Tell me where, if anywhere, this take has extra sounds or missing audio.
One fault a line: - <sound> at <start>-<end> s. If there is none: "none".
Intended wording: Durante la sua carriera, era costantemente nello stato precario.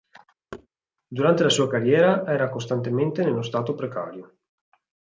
- thud at 0.5-0.7 s